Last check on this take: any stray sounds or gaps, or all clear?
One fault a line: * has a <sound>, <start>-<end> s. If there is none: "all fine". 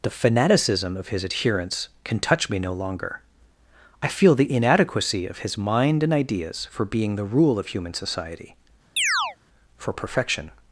* has a chirp, 9.0-9.4 s